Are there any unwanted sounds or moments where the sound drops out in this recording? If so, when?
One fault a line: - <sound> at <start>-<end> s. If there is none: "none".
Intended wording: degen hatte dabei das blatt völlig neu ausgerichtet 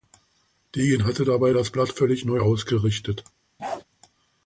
- bark at 3.6-3.8 s